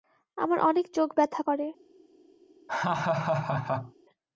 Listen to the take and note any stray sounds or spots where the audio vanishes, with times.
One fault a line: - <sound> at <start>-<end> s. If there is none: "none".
- laugh at 2.7-3.9 s